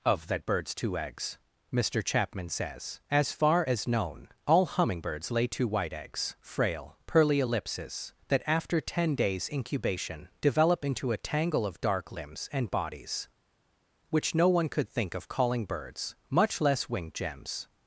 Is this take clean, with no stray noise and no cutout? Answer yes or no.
yes